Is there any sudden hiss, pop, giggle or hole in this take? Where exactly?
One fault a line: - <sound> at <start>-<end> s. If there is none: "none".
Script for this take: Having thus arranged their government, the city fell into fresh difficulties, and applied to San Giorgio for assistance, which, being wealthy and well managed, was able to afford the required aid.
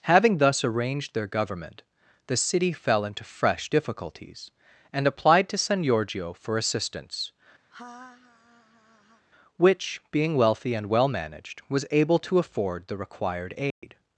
- laugh at 7.7-9.3 s
- dropout at 13.7-13.8 s